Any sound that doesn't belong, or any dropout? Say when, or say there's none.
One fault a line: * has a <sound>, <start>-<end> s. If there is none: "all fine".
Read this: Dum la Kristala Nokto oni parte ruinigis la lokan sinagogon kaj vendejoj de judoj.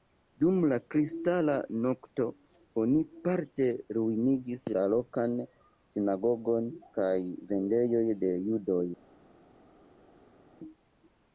all fine